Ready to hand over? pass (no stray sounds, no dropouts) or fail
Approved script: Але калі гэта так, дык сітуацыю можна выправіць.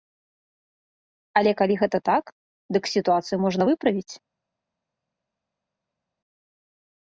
pass